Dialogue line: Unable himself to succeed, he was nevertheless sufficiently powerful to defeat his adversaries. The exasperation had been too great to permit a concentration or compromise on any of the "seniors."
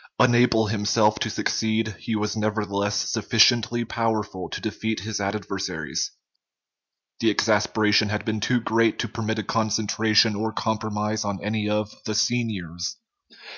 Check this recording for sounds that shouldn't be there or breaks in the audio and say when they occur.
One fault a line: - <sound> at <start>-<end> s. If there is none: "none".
none